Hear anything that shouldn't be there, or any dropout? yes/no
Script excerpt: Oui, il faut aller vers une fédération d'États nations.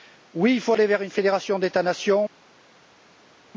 no